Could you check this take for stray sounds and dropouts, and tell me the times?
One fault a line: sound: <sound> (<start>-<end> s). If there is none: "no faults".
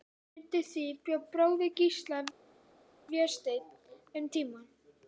no faults